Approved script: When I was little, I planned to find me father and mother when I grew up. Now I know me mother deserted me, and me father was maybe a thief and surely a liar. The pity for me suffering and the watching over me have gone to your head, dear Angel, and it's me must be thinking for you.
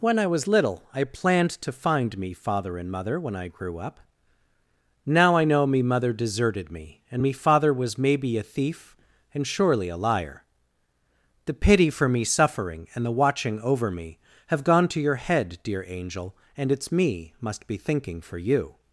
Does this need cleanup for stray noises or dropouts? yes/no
no